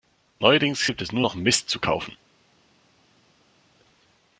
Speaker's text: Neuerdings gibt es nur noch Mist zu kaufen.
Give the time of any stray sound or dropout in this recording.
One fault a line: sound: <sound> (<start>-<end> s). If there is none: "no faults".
no faults